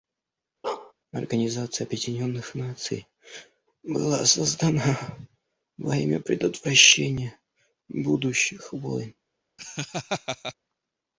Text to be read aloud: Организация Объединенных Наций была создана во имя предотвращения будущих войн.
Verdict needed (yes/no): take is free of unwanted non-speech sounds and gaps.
no